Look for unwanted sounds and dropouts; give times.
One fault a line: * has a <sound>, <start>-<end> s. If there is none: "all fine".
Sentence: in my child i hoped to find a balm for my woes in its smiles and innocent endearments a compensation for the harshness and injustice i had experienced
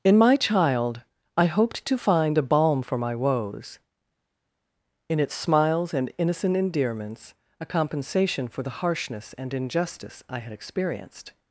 all fine